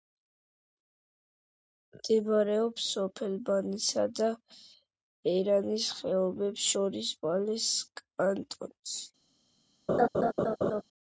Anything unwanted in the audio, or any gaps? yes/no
yes